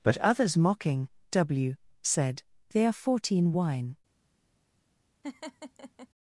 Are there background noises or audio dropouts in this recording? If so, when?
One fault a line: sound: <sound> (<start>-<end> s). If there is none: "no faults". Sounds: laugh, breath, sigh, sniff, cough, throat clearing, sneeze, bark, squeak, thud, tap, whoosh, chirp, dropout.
sound: laugh (5.2-6.1 s)